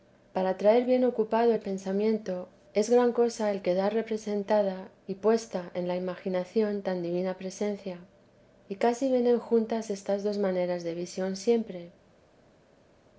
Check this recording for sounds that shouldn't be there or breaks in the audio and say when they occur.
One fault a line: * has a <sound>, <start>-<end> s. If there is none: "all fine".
all fine